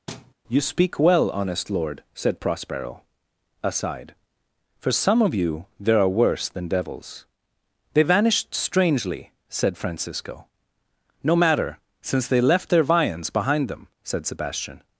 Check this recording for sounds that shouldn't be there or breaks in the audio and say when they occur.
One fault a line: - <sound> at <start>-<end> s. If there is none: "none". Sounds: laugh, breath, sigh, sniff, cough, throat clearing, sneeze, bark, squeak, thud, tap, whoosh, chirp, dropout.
- thud at 0.1-0.3 s